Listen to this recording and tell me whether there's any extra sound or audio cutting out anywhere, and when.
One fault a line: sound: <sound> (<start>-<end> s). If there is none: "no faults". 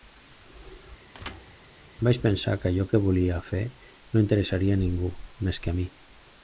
sound: thud (1.1-1.6 s)